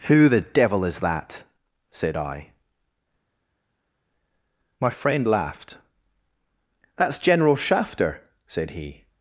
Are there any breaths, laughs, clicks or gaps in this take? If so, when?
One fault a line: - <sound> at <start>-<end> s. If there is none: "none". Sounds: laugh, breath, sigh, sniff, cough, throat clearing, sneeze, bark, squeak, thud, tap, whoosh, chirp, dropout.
none